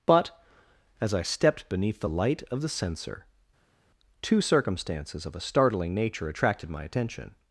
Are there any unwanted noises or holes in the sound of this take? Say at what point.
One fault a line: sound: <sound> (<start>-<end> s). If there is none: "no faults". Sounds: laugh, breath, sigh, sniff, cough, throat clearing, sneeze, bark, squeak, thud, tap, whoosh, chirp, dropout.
no faults